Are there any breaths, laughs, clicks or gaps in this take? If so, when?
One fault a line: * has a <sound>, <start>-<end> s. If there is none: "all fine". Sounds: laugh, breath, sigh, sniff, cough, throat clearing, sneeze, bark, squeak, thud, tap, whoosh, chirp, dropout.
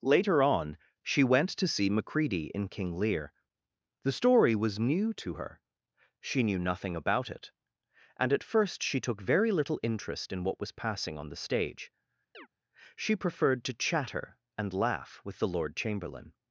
* has a chirp, 12.3-12.5 s